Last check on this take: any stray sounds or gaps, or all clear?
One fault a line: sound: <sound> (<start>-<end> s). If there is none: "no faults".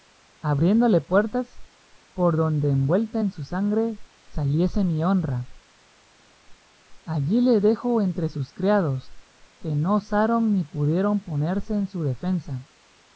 no faults